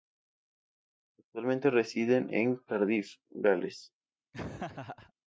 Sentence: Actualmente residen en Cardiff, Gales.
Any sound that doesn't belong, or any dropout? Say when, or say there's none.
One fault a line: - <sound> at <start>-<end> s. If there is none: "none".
- laugh at 4.3-5.1 s